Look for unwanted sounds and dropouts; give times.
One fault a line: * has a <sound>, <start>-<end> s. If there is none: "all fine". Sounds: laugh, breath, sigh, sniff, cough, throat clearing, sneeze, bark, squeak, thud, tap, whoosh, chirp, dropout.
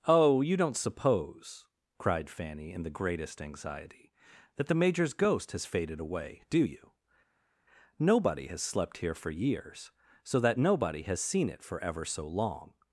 all fine